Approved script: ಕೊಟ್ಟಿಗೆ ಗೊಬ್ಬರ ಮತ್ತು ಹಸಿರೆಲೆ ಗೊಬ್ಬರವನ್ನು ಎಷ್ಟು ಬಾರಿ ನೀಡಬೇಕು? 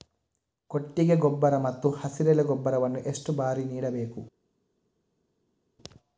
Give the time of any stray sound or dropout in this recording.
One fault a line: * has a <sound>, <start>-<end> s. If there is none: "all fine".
all fine